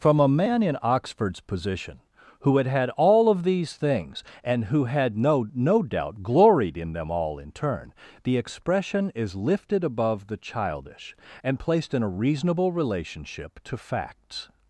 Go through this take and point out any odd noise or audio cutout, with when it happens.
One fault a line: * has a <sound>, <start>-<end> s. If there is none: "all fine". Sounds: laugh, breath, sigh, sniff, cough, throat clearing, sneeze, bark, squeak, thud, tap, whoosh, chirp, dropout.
all fine